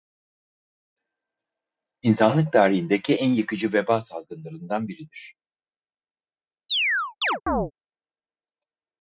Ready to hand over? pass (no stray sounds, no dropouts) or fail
fail